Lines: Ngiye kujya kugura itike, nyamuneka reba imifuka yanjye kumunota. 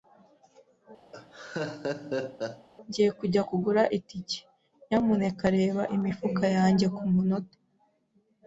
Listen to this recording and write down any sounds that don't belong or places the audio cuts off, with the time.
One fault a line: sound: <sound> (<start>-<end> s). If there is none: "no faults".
sound: laugh (1.1-2.7 s)